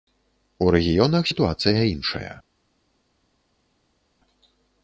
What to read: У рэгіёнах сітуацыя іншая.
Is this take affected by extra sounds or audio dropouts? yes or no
no